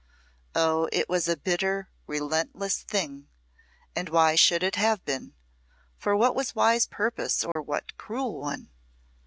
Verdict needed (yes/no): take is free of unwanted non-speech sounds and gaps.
no